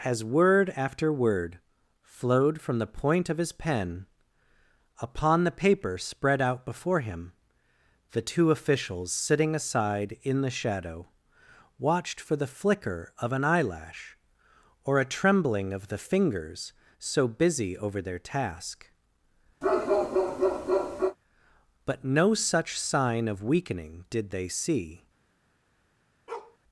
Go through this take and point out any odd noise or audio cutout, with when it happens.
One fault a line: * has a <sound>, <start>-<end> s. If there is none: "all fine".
* has a bark, 19.6-21.2 s
* has a bark, 26.3-26.6 s